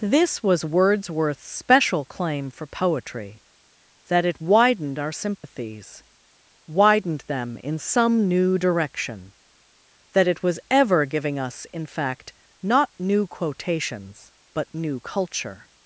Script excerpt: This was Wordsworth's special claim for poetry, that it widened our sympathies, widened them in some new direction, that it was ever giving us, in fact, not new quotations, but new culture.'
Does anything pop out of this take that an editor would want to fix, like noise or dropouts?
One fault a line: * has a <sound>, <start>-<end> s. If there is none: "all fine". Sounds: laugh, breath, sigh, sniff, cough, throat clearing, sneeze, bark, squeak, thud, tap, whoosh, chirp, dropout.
* has a dropout, 5.4-5.4 s